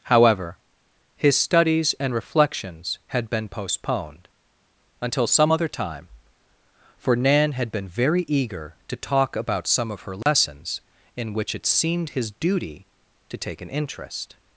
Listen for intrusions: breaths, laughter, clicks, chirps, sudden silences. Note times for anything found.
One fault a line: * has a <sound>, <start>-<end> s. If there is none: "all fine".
* has a dropout, 10.2-10.3 s